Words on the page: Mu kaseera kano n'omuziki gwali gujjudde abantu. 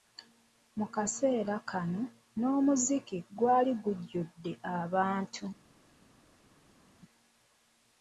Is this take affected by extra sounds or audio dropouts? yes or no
no